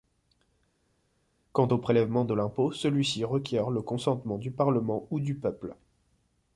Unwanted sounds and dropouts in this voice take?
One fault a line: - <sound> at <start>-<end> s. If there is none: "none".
none